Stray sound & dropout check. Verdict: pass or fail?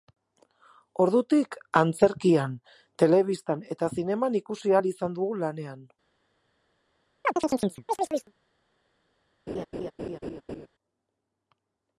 fail